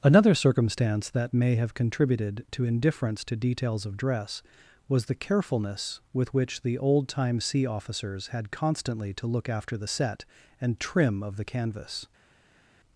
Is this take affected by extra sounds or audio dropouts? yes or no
no